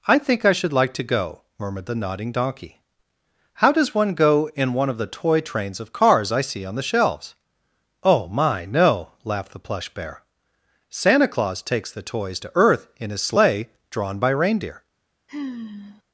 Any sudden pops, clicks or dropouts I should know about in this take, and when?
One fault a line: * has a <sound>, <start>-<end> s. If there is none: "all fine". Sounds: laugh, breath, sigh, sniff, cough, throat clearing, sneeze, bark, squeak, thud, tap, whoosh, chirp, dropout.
* has a sigh, 15.3-16.0 s